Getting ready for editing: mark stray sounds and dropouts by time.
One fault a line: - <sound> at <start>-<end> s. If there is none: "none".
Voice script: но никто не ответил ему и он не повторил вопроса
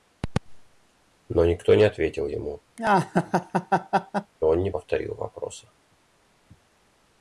- laugh at 2.8-4.3 s